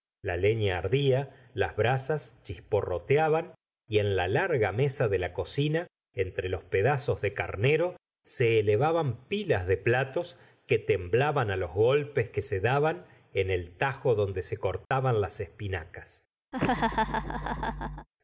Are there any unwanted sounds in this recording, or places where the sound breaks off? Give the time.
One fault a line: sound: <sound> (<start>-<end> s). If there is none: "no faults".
sound: dropout (14.8-14.9 s)
sound: laugh (16.5-18.1 s)